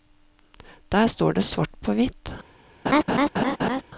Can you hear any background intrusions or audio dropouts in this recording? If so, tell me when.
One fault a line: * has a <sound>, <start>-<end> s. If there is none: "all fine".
* has a laugh, 2.9-3.8 s